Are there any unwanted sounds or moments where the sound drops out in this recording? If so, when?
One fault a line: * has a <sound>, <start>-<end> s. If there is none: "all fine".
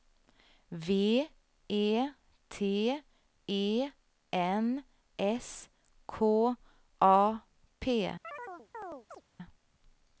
* has a chirp, 8.2-9.2 s